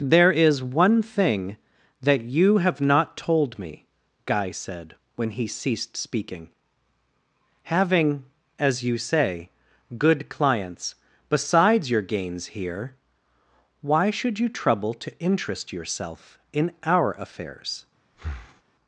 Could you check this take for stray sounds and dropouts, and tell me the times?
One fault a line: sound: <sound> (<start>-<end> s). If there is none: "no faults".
sound: breath (18.1-18.6 s)